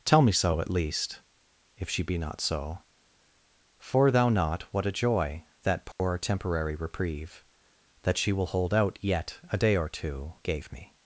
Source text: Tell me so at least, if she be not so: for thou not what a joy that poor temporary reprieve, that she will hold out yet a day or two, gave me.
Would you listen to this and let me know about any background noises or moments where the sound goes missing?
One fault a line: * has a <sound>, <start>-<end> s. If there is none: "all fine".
* has a dropout, 5.9-6.0 s